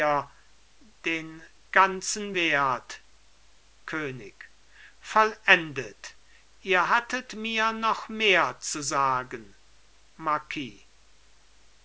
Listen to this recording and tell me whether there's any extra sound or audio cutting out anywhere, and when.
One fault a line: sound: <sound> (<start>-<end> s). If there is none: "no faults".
no faults